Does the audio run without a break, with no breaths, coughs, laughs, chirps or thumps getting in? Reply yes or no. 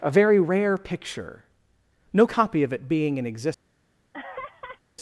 no